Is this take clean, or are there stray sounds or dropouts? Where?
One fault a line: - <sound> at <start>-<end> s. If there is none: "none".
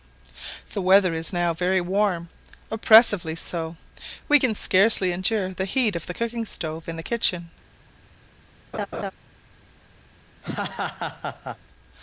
- laugh at 8.7-9.1 s
- laugh at 10.4-11.6 s